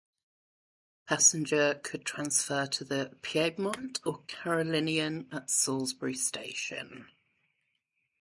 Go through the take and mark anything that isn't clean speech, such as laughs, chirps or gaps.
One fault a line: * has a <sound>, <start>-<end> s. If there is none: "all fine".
all fine